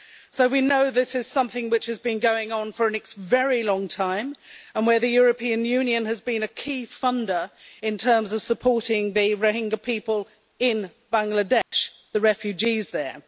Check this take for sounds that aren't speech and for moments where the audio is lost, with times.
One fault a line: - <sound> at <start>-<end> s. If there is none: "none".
- dropout at 11.6-11.7 s